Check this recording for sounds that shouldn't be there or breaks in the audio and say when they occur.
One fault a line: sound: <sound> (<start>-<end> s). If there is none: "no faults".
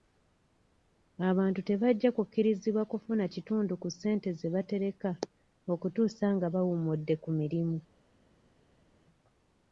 no faults